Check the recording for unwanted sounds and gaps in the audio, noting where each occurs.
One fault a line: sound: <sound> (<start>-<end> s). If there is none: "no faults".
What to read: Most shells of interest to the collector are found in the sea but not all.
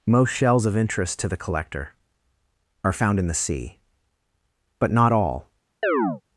sound: chirp (5.8-6.2 s)